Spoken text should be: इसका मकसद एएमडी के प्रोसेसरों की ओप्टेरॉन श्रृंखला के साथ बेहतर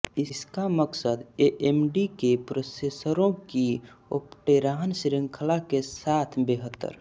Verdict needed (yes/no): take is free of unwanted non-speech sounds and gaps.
yes